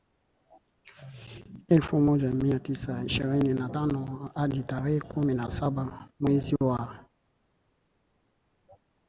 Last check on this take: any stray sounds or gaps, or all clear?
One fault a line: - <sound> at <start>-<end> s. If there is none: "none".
none